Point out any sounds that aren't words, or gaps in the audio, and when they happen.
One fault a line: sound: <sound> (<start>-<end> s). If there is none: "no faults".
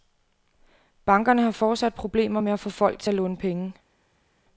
no faults